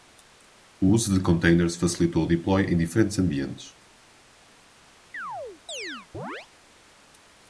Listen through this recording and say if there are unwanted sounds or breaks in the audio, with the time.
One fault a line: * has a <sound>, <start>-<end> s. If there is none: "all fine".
* has a chirp, 5.1-6.5 s